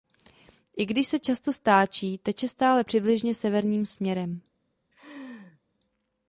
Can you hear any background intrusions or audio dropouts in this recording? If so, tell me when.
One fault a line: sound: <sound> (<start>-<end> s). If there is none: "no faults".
sound: laugh (4.9-5.6 s)